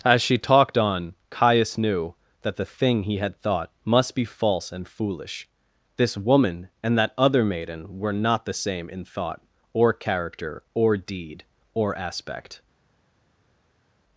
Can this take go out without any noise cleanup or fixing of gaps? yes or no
yes